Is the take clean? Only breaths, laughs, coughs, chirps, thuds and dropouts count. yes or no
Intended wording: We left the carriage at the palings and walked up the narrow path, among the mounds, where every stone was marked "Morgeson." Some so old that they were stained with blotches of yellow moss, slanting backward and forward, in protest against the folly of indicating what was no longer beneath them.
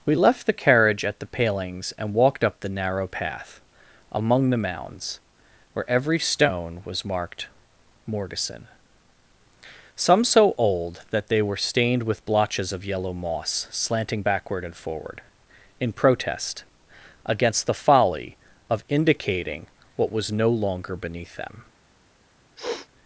no